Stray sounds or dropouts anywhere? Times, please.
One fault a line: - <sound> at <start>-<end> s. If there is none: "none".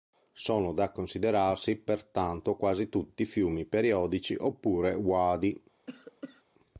- cough at 5.9-6.4 s